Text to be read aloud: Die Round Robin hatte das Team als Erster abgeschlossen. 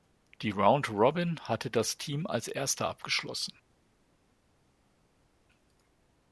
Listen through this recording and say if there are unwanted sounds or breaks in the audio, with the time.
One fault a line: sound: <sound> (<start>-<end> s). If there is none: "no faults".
no faults